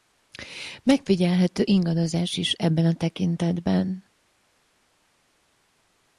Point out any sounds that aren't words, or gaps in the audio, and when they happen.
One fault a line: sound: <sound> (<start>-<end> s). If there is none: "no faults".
no faults